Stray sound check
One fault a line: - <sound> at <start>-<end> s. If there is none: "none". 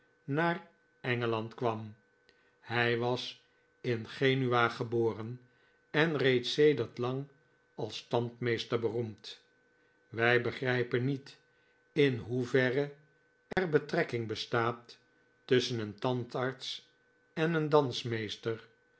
- dropout at 13.5-13.6 s